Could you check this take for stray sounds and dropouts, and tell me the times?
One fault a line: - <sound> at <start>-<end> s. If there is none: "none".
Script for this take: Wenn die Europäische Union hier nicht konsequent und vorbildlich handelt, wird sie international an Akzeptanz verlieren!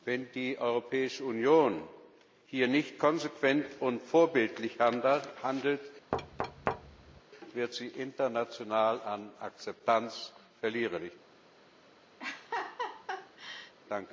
- thud at 6.1-7.2 s
- laugh at 12.2-13.7 s